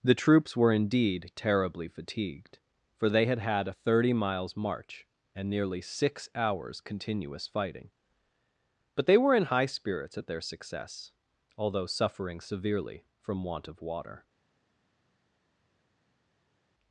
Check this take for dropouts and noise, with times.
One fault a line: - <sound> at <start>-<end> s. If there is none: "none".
none